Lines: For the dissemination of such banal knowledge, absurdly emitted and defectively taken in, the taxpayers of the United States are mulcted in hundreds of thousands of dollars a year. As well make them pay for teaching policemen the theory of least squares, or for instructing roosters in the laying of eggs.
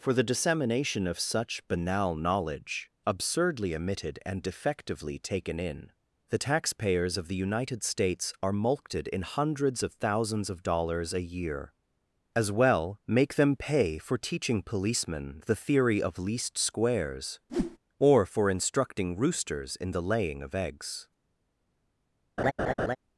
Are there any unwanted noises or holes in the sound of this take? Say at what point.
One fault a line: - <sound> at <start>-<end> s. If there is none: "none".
- whoosh at 17.5-17.8 s
- laugh at 22.4-23.0 s